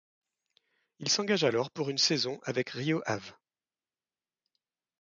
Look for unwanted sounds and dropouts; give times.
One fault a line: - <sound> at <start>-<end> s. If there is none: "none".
none